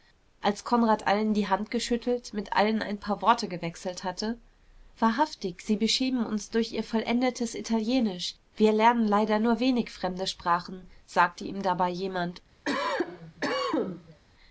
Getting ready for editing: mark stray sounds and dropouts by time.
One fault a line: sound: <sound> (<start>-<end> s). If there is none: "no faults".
sound: cough (12.7-14.2 s)